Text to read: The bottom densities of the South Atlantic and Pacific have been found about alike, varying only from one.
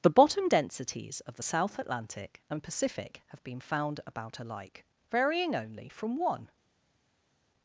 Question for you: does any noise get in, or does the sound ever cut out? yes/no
no